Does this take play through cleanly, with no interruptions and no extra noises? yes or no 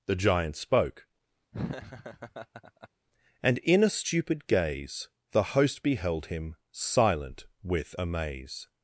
no